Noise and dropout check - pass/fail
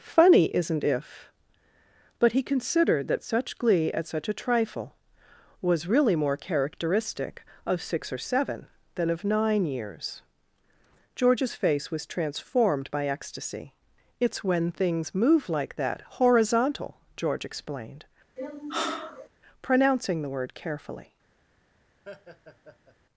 fail